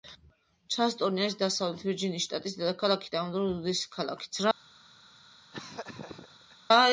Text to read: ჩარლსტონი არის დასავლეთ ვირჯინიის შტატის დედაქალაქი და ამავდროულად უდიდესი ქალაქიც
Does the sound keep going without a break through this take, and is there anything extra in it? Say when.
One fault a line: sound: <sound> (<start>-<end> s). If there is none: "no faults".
sound: laugh (5.5-6.6 s)